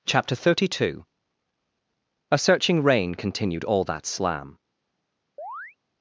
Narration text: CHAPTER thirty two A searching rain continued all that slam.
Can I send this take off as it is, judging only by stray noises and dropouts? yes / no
no